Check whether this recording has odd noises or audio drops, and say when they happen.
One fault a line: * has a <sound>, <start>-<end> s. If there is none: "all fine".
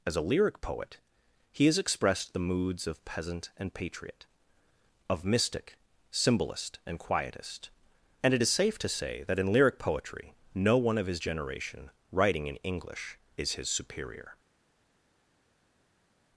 all fine